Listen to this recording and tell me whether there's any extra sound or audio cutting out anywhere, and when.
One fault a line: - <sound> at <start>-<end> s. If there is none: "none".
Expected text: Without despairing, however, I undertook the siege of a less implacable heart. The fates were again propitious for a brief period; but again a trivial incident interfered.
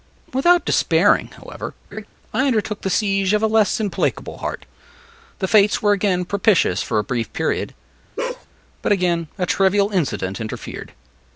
- laugh at 1.9-2.1 s
- bark at 8.2-8.5 s